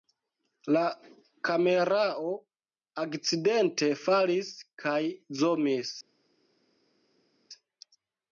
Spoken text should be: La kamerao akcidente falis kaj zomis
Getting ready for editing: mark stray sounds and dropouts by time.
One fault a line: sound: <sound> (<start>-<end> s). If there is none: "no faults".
no faults